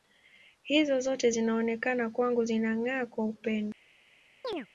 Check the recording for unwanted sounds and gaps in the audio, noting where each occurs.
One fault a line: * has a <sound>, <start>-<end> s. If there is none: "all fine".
* has a chirp, 4.4-4.7 s